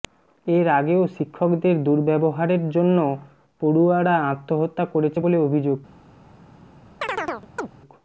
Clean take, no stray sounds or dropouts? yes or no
no